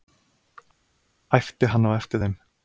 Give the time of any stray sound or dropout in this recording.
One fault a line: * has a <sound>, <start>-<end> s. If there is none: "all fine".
all fine